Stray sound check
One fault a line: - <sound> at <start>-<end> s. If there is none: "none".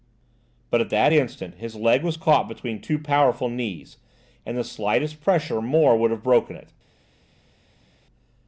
none